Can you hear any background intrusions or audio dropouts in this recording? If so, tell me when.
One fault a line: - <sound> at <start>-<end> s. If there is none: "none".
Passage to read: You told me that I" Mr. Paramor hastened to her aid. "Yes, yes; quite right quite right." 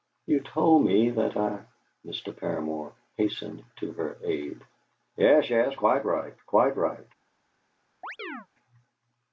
- chirp at 8.0-8.5 s